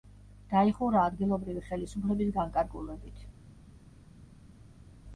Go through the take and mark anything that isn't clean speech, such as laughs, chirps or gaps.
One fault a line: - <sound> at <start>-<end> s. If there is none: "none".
none